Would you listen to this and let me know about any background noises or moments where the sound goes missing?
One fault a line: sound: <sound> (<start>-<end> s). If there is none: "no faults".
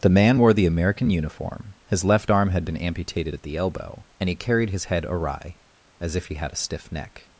no faults